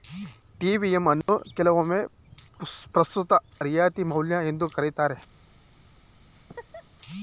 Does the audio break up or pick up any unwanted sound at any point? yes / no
yes